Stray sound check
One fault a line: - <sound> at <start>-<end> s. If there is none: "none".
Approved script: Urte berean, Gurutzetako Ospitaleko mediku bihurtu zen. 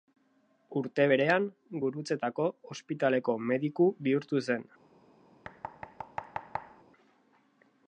- thud at 5.4-6.8 s